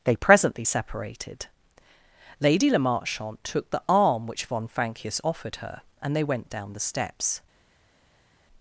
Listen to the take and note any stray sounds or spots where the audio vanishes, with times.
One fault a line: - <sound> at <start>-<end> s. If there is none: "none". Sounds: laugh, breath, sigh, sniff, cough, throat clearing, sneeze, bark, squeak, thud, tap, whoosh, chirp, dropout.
none